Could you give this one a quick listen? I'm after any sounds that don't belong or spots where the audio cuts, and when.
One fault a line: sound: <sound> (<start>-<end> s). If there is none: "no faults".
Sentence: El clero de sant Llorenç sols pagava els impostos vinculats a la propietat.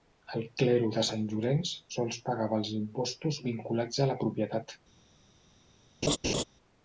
sound: laugh (6.0-6.4 s)